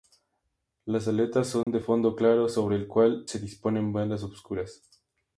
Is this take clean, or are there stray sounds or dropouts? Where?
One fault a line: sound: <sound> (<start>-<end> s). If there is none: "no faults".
sound: dropout (1.6-1.7 s)